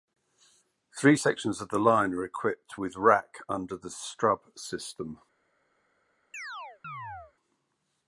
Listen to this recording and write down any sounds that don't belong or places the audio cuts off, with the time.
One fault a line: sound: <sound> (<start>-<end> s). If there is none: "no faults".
sound: chirp (6.3-7.3 s)